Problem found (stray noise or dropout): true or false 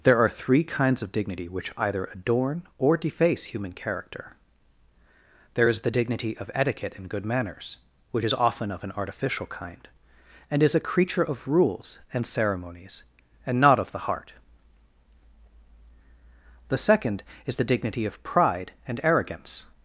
false